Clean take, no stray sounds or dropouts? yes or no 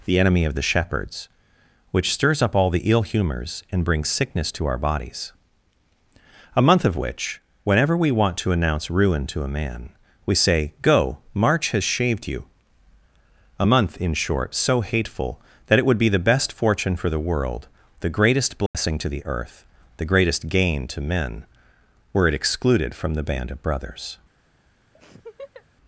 no